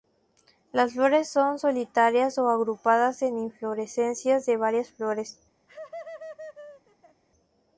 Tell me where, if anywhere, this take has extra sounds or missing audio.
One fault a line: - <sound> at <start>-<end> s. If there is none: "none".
- laugh at 5.7-7.2 s